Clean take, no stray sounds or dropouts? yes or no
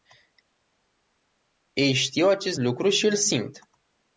yes